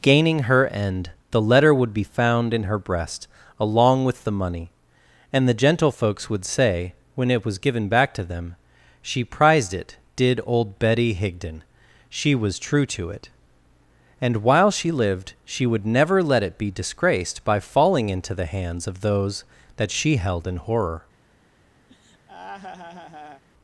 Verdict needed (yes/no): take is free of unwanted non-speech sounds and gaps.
no